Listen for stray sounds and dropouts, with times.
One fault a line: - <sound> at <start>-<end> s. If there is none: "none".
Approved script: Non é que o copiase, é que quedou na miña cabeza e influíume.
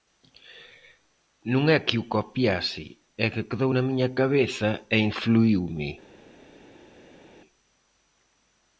none